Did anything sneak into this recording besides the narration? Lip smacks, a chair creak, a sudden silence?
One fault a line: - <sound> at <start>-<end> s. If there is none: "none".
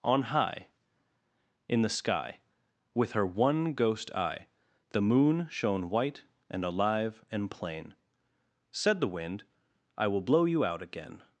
none